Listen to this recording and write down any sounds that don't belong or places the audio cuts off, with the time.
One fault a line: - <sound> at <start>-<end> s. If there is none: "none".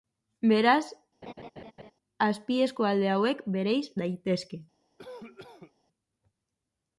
- laugh at 1.2-1.9 s
- cough at 5.0-5.7 s